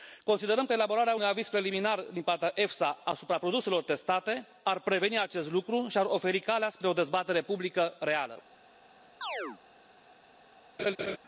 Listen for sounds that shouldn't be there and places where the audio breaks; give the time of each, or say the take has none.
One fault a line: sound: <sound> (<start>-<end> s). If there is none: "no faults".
sound: chirp (9.2-9.6 s)
sound: laugh (10.8-11.2 s)